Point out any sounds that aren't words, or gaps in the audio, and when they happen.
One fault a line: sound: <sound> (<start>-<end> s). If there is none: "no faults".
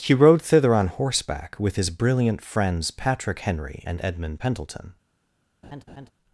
sound: laugh (5.6-6.1 s)